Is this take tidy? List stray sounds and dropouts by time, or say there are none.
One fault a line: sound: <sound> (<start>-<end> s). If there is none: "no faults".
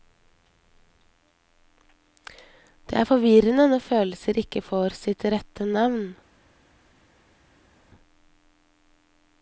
no faults